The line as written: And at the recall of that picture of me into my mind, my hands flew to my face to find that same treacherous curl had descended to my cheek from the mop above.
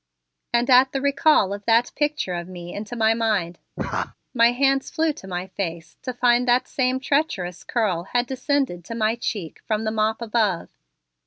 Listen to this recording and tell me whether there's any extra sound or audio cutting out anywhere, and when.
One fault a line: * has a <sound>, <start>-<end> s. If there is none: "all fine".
* has a laugh, 3.8-4.1 s